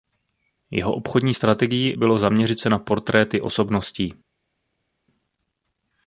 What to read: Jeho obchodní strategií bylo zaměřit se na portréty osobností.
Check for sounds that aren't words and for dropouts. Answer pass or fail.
pass